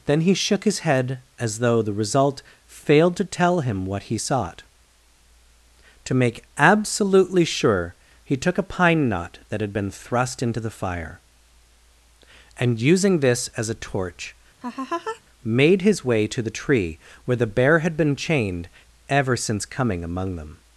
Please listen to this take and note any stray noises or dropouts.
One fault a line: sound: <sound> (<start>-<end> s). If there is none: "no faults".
sound: laugh (14.6-15.2 s)